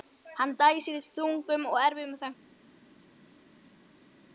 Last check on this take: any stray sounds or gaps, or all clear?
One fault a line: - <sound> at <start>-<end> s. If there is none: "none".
none